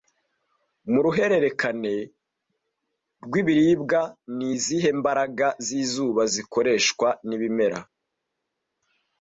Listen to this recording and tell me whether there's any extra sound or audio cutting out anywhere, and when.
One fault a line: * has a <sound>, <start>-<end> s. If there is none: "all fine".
all fine